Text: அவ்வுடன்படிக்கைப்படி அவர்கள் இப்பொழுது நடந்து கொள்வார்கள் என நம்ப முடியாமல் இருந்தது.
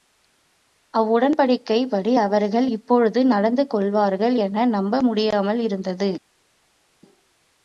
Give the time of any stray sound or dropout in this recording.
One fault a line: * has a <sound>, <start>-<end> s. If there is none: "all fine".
all fine